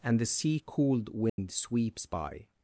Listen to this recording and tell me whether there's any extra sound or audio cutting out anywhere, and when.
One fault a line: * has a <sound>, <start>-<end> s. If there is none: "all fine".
* has a dropout, 1.3-1.4 s